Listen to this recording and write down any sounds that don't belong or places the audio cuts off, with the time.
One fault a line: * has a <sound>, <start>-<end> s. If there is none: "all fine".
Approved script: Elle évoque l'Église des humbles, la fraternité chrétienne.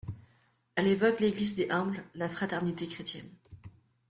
all fine